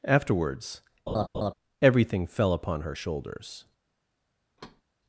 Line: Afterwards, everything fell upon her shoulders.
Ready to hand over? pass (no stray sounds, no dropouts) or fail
fail